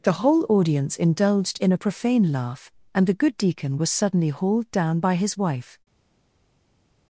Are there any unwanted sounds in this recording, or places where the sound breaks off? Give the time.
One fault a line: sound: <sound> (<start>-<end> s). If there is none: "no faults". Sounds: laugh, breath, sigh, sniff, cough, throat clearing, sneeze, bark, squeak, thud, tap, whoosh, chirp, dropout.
no faults